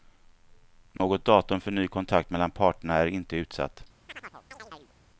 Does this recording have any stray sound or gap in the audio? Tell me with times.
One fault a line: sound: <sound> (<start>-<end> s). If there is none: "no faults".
sound: dropout (1.0-1.0 s)
sound: chirp (4.1-4.9 s)